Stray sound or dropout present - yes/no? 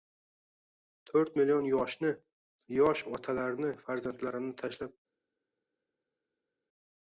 no